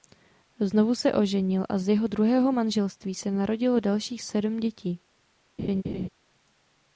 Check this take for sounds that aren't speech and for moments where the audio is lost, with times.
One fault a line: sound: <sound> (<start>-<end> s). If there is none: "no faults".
sound: laugh (5.6-6.1 s)